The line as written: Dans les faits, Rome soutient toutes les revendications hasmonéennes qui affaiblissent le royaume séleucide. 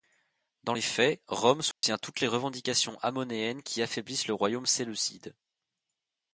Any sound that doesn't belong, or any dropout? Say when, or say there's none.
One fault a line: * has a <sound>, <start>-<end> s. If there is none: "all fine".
* has a dropout, 1.7-1.8 s